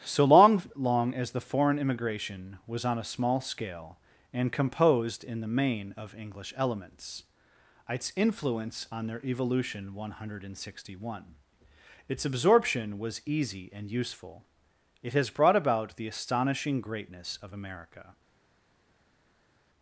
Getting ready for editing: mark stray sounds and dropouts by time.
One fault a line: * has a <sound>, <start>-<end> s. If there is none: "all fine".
all fine